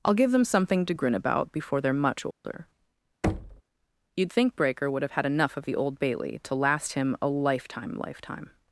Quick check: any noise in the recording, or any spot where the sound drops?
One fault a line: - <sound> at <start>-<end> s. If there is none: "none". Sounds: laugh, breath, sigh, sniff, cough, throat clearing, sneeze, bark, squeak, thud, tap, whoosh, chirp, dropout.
- dropout at 2.3-2.4 s
- thud at 3.2-3.6 s